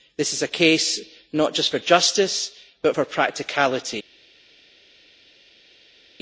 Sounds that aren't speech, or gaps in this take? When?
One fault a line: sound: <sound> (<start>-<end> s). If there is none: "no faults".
no faults